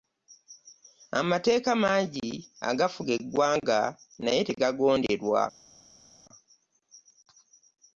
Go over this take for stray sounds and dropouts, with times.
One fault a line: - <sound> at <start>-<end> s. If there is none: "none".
none